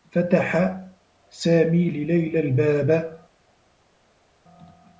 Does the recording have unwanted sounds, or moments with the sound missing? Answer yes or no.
no